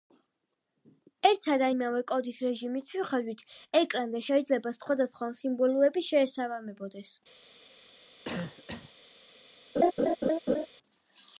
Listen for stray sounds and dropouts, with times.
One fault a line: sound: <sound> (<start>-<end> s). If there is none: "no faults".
sound: cough (8.2-8.9 s)
sound: laugh (9.8-10.7 s)